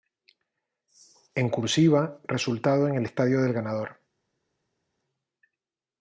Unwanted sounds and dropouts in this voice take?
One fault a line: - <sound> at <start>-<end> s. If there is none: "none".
none